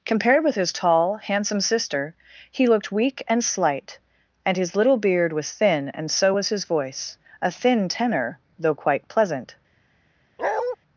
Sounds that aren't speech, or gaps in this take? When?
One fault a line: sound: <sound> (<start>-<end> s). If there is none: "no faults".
sound: bark (10.4-10.8 s)